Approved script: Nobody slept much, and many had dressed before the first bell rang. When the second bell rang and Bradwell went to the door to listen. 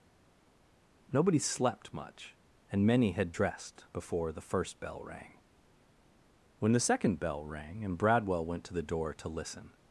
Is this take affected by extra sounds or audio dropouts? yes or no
no